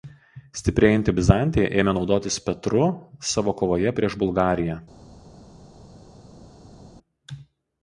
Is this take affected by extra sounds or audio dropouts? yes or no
no